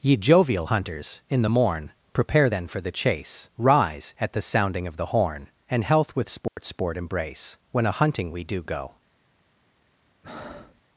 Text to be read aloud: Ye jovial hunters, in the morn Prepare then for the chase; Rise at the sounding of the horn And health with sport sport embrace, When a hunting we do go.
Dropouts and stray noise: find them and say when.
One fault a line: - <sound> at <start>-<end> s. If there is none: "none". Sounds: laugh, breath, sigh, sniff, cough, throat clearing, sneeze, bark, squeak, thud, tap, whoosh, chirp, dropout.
- dropout at 6.5-6.6 s
- breath at 10.2-10.8 s